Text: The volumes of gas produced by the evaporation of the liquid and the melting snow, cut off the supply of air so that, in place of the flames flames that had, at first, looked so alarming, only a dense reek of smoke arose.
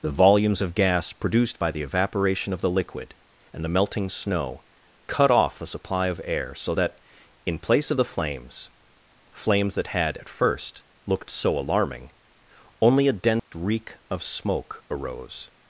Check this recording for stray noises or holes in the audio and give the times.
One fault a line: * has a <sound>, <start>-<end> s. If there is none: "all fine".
* has a dropout, 13.4-13.5 s